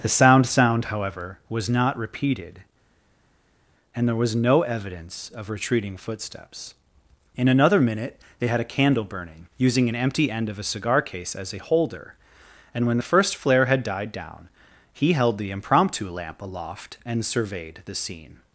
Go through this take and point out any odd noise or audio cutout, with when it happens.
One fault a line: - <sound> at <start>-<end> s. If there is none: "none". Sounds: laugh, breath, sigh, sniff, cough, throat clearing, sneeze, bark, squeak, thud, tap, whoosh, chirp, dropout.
none